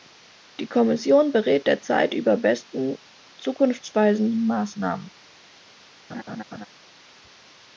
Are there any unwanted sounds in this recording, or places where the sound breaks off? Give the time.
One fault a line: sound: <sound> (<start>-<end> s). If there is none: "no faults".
sound: laugh (6.1-6.7 s)